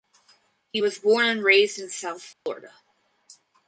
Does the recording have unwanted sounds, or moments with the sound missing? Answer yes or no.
yes